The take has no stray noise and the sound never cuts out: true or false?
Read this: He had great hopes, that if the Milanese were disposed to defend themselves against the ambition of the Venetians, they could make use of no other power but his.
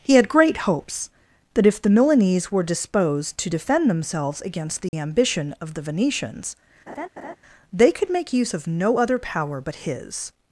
false